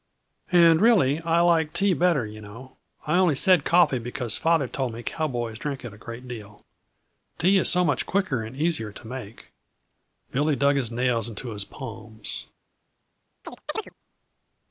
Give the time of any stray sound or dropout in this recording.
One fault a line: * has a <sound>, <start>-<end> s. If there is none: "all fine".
* has a chirp, 13.4-13.9 s